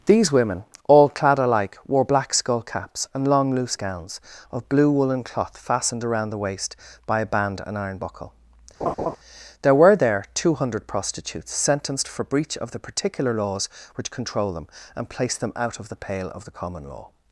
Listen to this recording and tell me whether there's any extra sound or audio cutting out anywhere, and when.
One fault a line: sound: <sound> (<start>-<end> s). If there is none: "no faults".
sound: laugh (8.8-9.2 s)